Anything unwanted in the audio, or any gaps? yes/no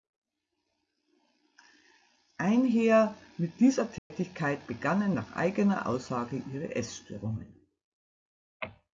yes